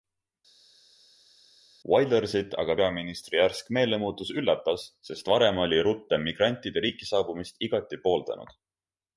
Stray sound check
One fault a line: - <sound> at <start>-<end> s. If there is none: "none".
none